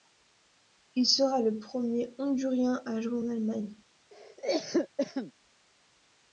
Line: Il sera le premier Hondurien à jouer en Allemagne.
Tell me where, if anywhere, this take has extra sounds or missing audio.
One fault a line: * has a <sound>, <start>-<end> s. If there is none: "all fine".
* has a cough, 4.1-5.3 s